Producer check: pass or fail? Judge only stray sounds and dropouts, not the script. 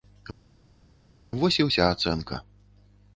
pass